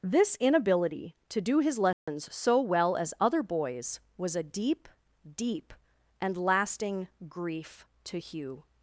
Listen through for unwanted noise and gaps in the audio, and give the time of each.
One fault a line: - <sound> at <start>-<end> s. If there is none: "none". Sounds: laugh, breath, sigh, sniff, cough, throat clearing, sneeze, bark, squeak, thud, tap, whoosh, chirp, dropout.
- dropout at 1.9-2.1 s